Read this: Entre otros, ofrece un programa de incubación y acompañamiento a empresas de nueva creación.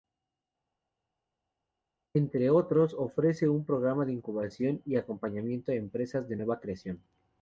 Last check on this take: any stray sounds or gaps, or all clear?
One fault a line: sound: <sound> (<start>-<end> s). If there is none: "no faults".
no faults